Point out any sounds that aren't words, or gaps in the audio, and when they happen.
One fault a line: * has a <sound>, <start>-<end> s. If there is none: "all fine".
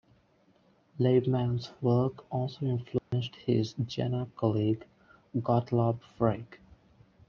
* has a dropout, 3.0-3.1 s